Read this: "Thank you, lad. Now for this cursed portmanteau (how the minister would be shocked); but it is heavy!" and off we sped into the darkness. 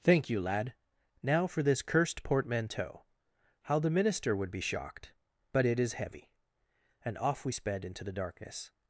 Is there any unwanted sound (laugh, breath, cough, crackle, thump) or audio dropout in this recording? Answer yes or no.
no